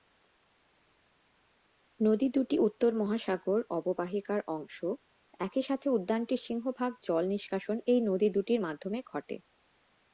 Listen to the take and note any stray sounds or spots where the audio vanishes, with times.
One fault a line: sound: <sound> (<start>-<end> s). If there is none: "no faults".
no faults